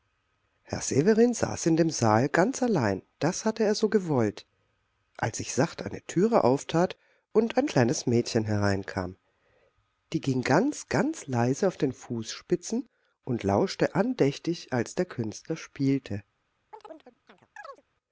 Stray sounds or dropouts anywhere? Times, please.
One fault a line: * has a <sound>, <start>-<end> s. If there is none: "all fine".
* has a chirp, 16.7-17.8 s